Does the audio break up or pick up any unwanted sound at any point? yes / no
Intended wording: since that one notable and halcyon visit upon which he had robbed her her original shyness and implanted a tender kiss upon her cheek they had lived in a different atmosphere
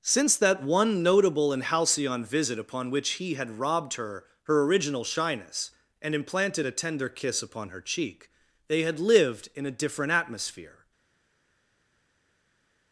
no